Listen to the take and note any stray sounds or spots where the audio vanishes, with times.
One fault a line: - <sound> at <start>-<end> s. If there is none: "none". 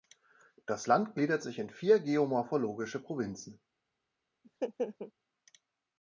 - laugh at 4.4-5.1 s